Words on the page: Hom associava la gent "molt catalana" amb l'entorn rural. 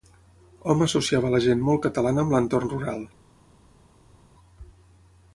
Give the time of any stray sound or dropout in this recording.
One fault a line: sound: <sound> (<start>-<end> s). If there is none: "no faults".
no faults